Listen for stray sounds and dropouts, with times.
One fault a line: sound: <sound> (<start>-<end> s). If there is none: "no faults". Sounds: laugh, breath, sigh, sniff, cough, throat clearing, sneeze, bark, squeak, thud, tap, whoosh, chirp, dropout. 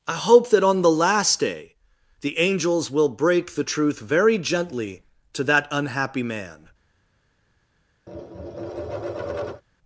sound: tap (8.1-9.6 s)